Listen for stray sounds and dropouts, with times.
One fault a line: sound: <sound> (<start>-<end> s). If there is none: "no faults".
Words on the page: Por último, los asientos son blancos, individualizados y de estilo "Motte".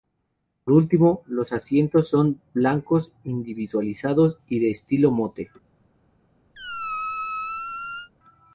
sound: squeak (6.5-8.1 s)